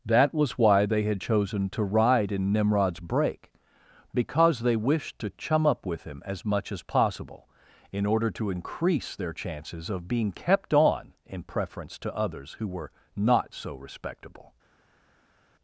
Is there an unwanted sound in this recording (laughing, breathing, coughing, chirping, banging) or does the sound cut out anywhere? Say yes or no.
no